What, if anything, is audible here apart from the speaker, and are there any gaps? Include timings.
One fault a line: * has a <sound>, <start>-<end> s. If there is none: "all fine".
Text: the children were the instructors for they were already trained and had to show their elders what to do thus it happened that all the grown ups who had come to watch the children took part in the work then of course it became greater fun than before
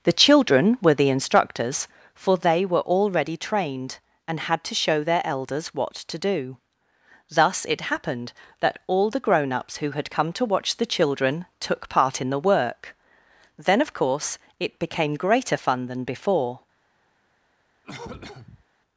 * has a cough, 17.8-18.6 s